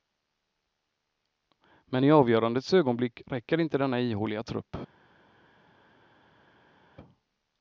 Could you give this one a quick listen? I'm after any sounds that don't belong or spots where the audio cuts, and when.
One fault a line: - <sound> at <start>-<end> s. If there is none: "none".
none